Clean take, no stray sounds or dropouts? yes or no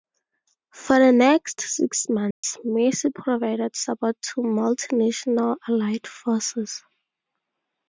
no